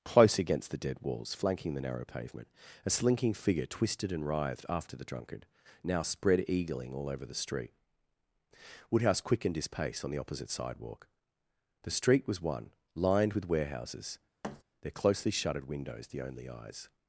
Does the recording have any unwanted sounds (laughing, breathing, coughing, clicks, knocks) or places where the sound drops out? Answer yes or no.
yes